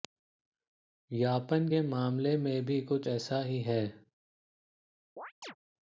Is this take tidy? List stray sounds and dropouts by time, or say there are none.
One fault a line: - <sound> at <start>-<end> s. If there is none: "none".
- chirp at 5.2-5.6 s